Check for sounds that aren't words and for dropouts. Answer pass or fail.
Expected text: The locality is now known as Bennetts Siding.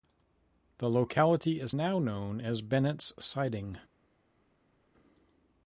pass